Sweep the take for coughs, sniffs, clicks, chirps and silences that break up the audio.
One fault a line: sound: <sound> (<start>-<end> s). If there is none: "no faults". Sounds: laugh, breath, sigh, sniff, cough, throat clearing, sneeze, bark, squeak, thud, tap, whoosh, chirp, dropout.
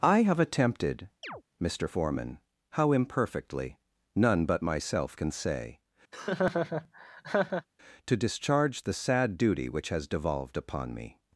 sound: chirp (1.2-1.4 s)
sound: laugh (6.1-7.7 s)